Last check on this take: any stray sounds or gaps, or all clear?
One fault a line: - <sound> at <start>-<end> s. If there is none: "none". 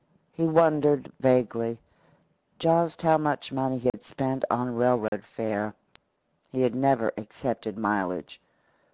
- dropout at 3.9-3.9 s
- dropout at 5.1-5.1 s